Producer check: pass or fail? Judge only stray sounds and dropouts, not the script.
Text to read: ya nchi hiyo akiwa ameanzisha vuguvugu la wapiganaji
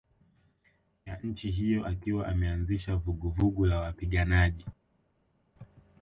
pass